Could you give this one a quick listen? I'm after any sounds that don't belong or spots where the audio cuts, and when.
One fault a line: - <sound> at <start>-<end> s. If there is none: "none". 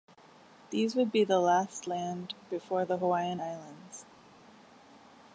none